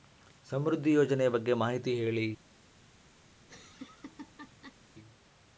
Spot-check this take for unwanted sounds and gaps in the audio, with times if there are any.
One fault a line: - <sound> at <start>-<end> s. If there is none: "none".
- laugh at 3.4-4.8 s